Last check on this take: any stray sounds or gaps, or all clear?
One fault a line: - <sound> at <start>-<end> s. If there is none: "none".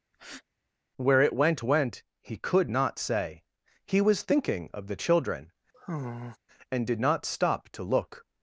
- breath at 0.1-0.4 s
- sigh at 5.7-6.4 s